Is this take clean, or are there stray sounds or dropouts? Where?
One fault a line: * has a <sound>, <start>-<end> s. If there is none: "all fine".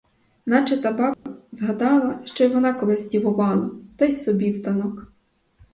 * has a dropout, 1.1-1.3 s